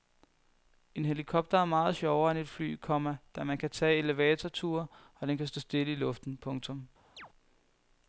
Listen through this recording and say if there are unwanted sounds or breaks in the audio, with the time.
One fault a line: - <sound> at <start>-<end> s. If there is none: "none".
- chirp at 7.2-7.3 s